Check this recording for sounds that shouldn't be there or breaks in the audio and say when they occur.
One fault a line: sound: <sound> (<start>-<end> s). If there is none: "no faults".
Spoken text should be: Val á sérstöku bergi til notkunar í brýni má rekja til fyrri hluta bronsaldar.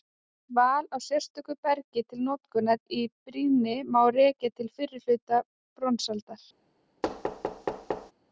sound: thud (7.0-8.1 s)